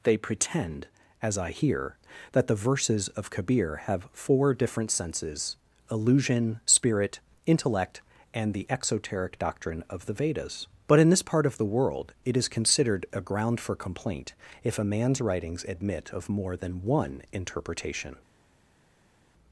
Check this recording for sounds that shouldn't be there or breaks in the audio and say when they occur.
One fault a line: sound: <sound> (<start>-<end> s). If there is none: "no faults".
no faults